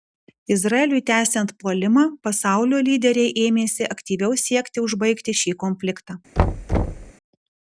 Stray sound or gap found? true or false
true